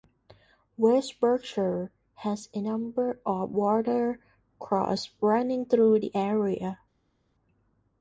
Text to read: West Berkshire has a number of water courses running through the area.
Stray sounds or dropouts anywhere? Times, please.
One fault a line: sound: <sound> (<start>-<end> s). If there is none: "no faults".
no faults